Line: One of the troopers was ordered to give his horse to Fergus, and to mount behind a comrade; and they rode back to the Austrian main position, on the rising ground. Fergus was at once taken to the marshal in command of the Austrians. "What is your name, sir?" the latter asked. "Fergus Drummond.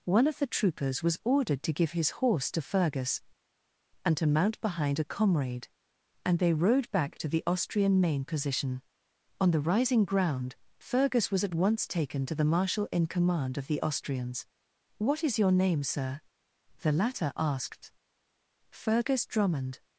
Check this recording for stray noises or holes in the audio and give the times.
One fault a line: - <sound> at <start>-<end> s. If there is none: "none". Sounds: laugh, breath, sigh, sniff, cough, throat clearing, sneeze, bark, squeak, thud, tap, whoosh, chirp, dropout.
none